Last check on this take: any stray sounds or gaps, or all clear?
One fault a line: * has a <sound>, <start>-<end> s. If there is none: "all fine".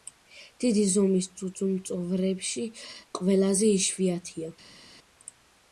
all fine